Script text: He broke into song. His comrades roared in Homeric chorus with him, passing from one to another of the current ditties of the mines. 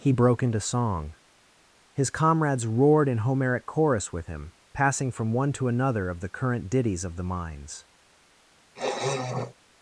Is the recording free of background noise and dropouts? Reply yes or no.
no